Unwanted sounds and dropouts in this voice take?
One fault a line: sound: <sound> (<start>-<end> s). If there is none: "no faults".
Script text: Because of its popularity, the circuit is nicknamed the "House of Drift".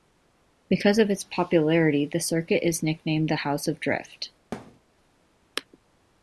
sound: thud (4.5-4.8 s)